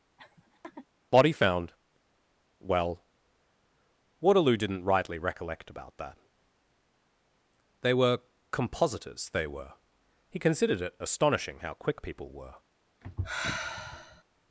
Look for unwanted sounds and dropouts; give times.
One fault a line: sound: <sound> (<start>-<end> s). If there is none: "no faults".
sound: laugh (0.2-0.9 s)
sound: sigh (13.0-14.2 s)